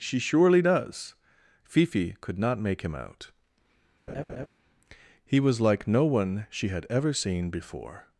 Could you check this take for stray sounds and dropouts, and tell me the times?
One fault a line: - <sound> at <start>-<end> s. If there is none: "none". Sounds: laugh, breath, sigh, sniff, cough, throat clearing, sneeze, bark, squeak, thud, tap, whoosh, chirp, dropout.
- laugh at 4.1-4.5 s